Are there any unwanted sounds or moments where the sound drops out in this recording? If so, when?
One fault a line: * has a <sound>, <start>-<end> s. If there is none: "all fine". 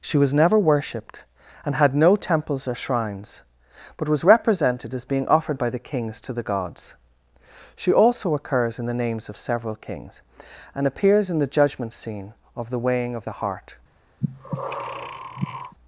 * has a breath, 14.2-15.8 s